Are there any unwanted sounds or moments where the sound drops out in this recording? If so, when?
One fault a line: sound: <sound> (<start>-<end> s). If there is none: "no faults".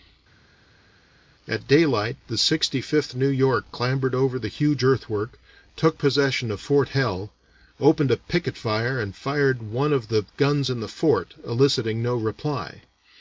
no faults